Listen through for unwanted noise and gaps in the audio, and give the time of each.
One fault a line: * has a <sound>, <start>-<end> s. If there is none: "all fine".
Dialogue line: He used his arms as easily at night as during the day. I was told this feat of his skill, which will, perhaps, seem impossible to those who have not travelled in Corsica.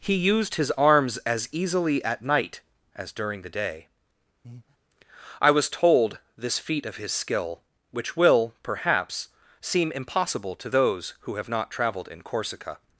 * has a breath, 4.4-4.8 s